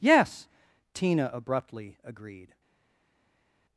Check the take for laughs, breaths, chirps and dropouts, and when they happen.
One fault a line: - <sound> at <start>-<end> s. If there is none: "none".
none